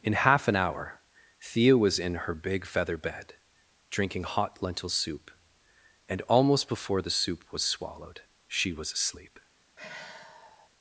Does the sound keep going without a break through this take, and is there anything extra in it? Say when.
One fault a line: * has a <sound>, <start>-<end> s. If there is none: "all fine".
* has a sigh, 9.8-10.7 s